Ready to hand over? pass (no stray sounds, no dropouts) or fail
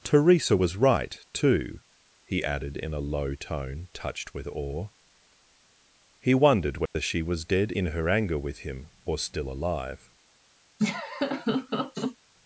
fail